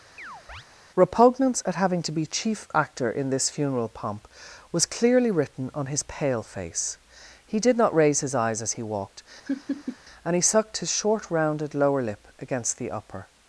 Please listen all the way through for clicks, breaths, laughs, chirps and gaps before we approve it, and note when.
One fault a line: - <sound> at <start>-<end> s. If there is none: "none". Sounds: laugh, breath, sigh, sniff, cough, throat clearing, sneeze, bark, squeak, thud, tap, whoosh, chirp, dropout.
- chirp at 0.2-0.6 s
- laugh at 9.5-10.0 s